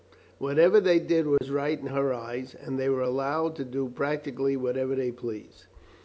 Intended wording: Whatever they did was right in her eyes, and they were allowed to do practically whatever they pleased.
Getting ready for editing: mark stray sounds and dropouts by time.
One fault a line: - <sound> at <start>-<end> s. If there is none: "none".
- dropout at 1.4-1.4 s